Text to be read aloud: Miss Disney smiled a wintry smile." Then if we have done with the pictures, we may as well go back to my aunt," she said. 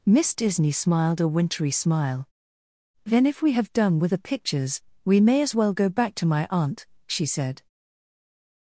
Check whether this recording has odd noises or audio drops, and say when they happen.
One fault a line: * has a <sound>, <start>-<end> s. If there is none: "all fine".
all fine